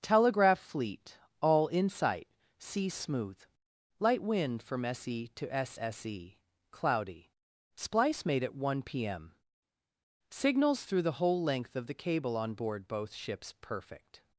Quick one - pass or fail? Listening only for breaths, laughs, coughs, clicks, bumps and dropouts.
pass